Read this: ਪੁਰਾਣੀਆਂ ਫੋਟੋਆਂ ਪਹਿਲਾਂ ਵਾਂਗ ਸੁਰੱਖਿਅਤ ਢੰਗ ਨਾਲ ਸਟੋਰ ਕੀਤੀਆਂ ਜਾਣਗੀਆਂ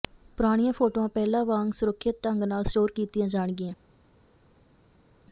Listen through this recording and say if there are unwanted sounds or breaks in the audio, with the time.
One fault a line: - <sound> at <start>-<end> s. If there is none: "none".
none